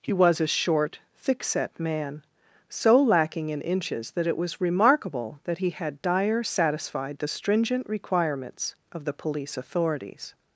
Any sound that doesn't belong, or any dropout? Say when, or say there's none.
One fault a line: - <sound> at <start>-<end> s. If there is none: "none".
none